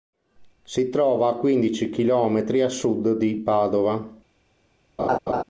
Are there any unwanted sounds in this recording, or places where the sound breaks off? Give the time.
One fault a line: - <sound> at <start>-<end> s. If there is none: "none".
- laugh at 5.0-5.4 s